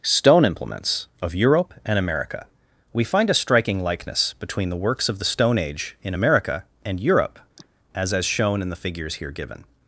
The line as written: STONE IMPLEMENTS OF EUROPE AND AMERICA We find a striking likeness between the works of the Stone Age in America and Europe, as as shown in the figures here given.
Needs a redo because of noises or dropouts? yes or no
yes